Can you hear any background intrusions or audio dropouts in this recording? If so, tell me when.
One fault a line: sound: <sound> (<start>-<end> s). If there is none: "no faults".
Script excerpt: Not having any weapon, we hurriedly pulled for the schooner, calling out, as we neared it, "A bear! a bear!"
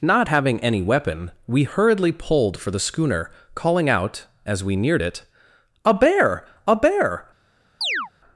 sound: chirp (7.8-8.1 s)